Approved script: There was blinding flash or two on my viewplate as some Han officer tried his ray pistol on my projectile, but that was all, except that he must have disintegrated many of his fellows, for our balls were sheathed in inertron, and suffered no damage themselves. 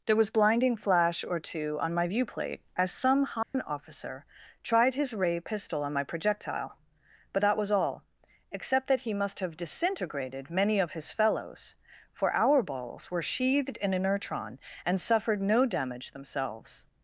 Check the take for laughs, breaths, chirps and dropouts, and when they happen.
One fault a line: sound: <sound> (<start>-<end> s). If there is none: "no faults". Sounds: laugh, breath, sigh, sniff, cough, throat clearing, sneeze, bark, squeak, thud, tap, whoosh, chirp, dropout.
sound: dropout (3.4-3.5 s)